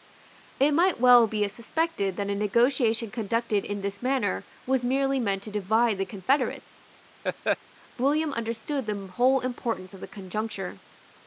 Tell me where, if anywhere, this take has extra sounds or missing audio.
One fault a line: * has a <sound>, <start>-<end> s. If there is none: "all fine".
* has a laugh, 7.2-7.6 s